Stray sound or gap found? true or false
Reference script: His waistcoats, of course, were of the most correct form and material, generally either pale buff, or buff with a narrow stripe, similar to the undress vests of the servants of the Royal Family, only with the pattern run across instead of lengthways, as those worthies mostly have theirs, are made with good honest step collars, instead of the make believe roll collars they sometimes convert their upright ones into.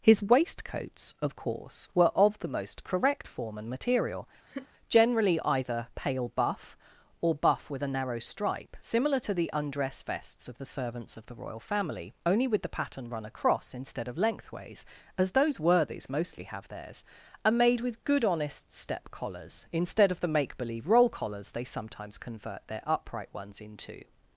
true